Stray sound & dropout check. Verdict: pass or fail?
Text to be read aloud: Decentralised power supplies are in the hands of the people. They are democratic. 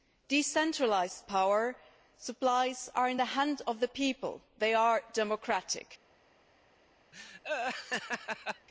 fail